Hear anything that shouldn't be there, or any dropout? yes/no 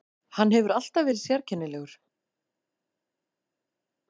no